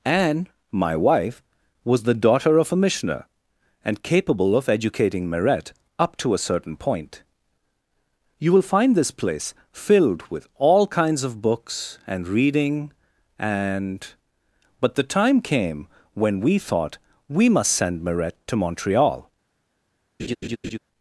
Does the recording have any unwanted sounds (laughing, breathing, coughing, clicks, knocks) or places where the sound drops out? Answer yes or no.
yes